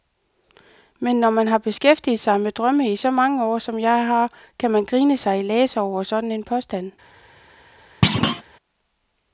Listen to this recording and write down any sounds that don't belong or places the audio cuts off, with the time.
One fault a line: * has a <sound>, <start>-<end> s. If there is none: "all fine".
* has a thud, 8.0-8.4 s